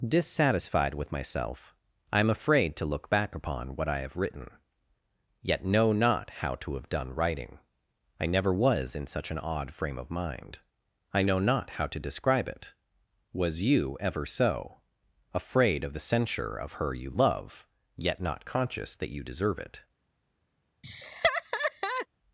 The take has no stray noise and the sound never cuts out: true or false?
false